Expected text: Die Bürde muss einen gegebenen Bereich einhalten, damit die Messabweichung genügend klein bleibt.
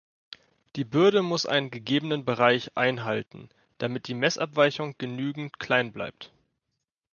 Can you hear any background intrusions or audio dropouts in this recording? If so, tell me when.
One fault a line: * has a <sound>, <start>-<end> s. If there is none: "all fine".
all fine